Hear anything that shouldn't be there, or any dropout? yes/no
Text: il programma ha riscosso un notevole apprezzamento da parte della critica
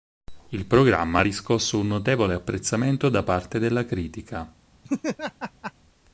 yes